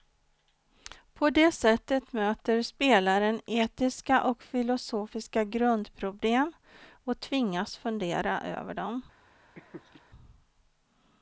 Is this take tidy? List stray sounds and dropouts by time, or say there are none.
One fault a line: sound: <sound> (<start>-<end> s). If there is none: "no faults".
sound: laugh (9.6-10.0 s)